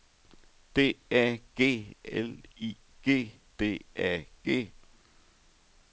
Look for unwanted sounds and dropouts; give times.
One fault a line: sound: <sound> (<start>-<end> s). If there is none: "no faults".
no faults